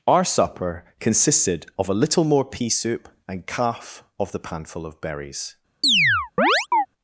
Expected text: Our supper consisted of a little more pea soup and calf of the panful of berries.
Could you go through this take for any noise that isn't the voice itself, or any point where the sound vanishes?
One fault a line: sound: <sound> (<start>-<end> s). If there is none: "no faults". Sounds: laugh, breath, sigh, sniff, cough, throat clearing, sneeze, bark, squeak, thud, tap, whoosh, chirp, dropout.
sound: chirp (5.8-6.9 s)